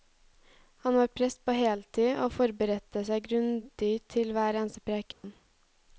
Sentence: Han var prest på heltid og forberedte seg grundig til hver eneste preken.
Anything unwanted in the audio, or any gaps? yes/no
yes